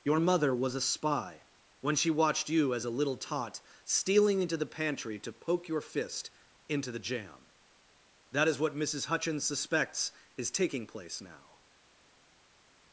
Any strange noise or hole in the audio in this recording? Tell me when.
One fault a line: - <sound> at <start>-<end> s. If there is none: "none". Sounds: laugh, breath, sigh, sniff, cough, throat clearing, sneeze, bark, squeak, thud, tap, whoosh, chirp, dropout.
none